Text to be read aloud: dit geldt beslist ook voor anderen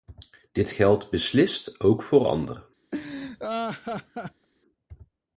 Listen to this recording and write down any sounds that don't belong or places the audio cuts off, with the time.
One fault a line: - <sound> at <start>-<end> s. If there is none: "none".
- laugh at 2.9-4.5 s